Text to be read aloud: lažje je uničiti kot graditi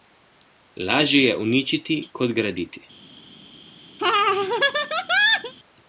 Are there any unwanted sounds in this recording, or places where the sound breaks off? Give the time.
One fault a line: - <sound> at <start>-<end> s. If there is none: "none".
- laugh at 4.0-5.5 s